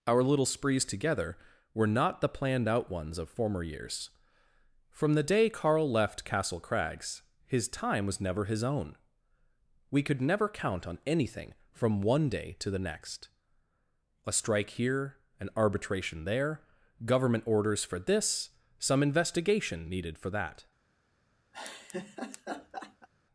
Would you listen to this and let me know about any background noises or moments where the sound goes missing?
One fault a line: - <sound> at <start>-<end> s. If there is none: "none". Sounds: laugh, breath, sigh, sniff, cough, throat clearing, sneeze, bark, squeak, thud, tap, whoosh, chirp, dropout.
- laugh at 21.5-23.1 s